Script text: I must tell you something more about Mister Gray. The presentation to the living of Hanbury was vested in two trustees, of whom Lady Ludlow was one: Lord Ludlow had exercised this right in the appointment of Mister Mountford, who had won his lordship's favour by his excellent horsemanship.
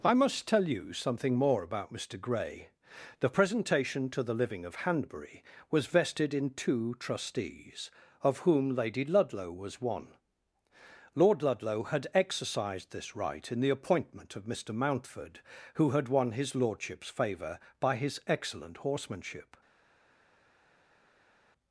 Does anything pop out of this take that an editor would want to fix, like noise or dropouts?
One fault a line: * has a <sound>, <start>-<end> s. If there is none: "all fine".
all fine